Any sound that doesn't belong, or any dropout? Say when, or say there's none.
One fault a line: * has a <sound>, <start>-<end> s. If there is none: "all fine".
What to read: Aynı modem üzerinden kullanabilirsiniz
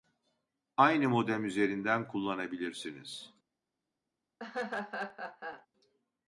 * has a laugh, 4.4-5.7 s